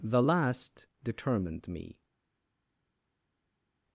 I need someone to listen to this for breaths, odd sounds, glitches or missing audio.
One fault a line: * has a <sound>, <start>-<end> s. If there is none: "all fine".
all fine